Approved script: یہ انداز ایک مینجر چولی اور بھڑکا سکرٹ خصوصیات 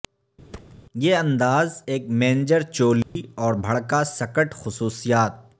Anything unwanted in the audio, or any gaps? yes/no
yes